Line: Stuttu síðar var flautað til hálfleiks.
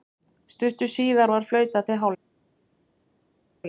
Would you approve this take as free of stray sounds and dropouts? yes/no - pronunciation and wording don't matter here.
yes